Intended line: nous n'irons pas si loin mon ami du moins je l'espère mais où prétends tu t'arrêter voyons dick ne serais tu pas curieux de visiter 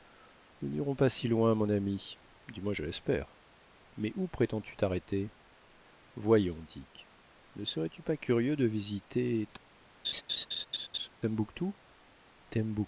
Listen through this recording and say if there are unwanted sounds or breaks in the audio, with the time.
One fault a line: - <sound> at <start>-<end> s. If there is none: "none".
- laugh at 10.0-11.1 s